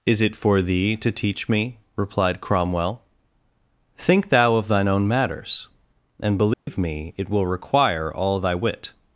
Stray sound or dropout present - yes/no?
yes